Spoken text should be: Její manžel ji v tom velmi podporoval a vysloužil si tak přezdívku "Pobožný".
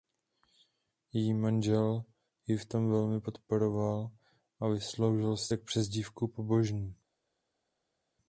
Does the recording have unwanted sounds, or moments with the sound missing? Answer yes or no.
no